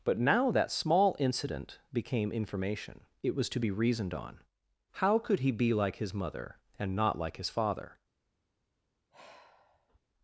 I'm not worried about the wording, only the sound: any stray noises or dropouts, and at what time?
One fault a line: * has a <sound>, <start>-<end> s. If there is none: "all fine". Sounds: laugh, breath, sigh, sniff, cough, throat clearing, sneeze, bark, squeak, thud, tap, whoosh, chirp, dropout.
* has a sigh, 9.1-10.0 s